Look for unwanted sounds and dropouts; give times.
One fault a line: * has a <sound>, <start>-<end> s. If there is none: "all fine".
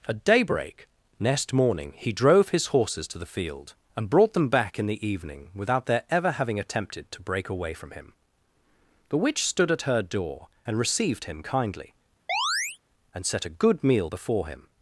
* has a chirp, 12.3-12.8 s